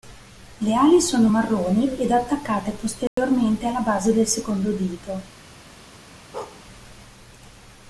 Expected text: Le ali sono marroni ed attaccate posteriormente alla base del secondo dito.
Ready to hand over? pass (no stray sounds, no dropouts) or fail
fail